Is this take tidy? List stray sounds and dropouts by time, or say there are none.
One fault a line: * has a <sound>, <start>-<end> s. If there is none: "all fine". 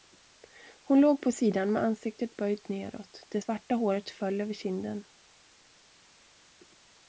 all fine